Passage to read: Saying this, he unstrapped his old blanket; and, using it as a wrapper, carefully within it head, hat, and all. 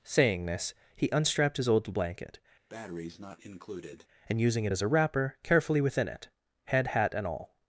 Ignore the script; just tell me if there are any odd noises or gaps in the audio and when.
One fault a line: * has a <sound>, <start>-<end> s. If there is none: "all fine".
* has a breath, 2.7-4.1 s